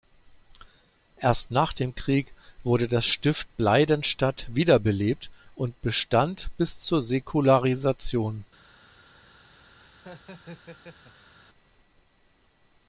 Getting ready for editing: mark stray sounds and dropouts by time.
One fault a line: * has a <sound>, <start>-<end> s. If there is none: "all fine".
* has a laugh, 9.8-11.3 s